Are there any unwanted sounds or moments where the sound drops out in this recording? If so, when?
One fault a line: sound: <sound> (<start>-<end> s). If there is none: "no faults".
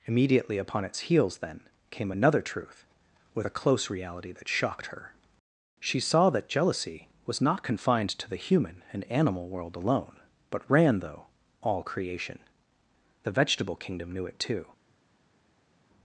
no faults